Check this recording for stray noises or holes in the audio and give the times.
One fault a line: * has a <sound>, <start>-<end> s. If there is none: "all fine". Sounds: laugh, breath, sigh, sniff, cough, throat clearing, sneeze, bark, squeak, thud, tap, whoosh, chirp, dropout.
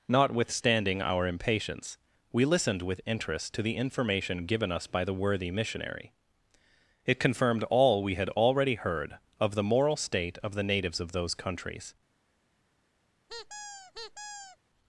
* has a squeak, 13.3-14.6 s